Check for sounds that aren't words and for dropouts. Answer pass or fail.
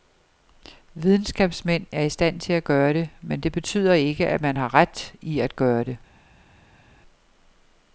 pass